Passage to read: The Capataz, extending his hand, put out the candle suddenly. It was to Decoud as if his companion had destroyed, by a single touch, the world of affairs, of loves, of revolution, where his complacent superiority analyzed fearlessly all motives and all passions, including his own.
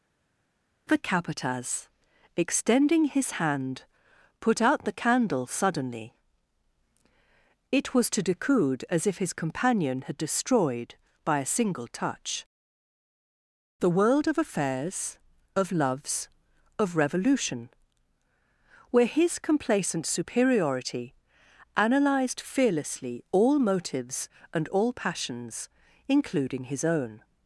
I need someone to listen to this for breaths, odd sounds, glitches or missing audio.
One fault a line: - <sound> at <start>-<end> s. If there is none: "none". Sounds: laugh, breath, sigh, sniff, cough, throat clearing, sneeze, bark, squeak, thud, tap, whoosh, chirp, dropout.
none